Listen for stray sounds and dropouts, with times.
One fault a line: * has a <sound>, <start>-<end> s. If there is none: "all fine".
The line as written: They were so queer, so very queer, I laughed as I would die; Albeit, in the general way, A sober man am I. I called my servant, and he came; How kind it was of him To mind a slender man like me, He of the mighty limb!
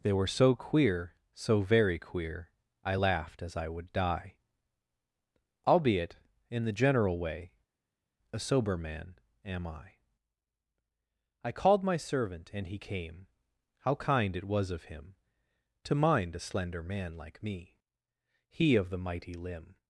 all fine